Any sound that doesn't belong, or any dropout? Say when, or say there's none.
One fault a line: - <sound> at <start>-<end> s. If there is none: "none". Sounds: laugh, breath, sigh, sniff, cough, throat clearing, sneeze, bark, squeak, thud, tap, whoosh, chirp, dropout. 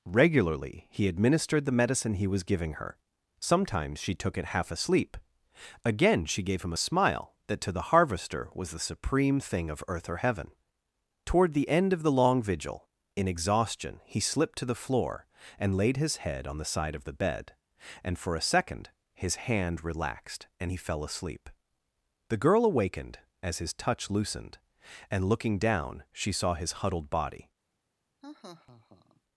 - laugh at 28.2-29.2 s